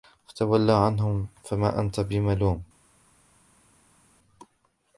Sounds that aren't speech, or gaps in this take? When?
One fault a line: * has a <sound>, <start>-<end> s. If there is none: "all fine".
all fine